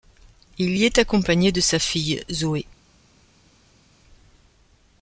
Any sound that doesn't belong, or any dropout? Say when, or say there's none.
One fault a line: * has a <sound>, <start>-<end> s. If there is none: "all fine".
all fine